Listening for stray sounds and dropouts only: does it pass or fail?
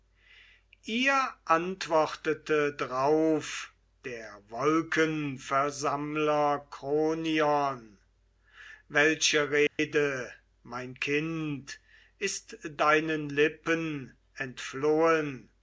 fail